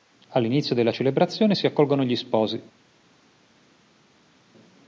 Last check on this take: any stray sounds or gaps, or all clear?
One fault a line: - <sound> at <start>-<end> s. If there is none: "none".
none